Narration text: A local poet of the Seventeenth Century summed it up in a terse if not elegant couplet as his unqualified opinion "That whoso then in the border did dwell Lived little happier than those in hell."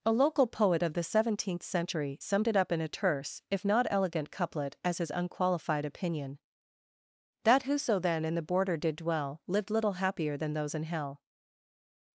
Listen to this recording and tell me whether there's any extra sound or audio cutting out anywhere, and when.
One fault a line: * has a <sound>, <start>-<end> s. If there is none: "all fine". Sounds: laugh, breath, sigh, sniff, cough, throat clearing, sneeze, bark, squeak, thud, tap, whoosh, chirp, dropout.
all fine